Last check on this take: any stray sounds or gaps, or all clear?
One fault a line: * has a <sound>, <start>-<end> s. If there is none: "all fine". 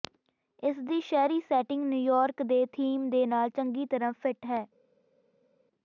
all fine